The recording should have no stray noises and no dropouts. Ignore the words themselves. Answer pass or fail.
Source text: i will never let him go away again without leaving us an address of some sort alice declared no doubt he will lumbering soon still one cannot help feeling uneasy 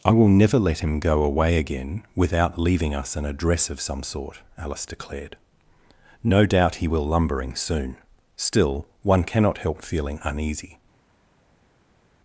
pass